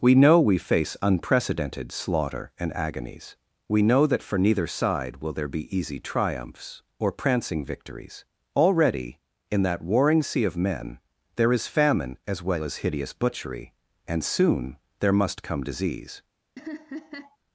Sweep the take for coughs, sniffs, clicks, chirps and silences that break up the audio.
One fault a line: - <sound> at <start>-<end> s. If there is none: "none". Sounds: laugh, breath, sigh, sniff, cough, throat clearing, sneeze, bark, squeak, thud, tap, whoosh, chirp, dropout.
- laugh at 16.6-17.4 s